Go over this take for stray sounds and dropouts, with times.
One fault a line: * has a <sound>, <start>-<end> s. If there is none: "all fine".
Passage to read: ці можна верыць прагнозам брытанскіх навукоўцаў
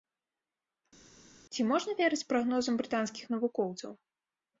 all fine